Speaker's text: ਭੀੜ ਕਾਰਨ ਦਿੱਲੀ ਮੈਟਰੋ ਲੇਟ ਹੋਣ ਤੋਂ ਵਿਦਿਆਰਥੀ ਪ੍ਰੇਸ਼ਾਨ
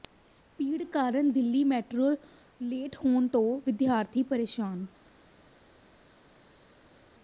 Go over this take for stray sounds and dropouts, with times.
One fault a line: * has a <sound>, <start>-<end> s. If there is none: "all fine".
all fine